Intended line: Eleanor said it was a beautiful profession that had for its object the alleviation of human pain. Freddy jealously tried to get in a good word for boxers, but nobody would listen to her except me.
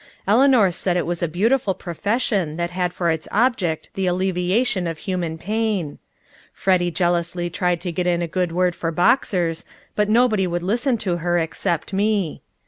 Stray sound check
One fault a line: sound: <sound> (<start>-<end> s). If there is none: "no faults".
no faults